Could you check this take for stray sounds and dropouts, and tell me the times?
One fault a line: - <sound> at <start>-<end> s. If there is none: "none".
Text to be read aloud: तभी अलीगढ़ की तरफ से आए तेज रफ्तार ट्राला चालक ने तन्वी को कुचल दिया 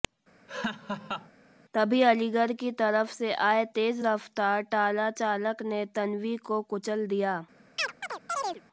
- laugh at 0.5-1.3 s
- chirp at 7.8-8.6 s